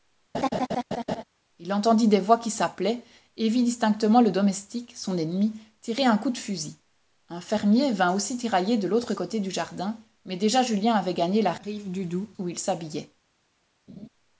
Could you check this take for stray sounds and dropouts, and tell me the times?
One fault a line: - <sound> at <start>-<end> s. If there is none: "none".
- laugh at 0.3-1.2 s
- laugh at 13.9-14.1 s